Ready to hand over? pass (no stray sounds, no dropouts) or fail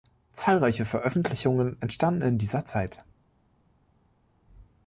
pass